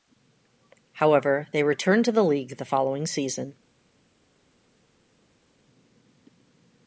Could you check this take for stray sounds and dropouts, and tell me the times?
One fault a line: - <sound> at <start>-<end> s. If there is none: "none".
none